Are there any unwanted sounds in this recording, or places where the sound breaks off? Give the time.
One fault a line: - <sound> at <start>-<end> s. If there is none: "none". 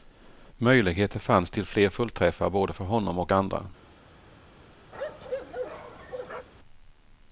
- bark at 4.9-6.5 s